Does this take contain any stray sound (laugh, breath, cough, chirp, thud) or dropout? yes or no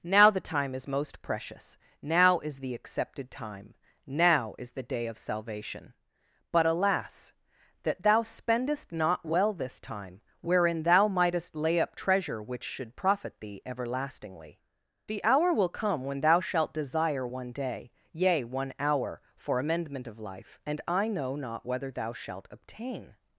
no